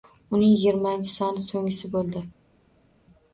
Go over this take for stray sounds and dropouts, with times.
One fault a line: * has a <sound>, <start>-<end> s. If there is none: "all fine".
all fine